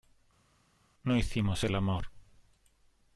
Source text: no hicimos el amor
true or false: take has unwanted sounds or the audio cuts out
false